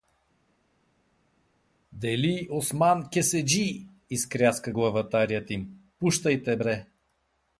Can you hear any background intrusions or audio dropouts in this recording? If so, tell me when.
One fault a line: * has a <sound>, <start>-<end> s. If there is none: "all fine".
all fine